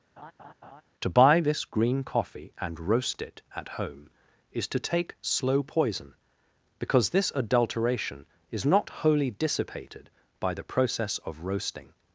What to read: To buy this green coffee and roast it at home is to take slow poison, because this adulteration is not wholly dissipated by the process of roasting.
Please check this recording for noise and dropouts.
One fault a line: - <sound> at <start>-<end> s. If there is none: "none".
- laugh at 0.2-0.8 s